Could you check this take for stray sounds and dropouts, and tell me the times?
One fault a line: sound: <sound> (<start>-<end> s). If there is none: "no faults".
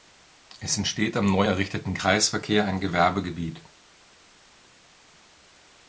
no faults